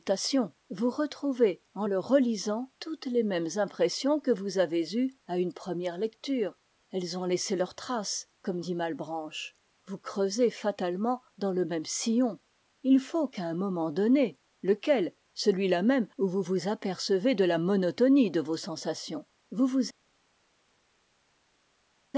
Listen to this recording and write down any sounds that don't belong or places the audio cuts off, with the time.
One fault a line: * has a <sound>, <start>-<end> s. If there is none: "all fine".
all fine